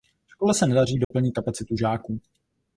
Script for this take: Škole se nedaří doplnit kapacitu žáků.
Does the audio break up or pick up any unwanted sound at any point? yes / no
yes